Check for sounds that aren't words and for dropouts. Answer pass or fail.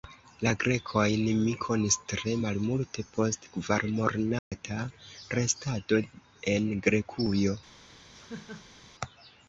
fail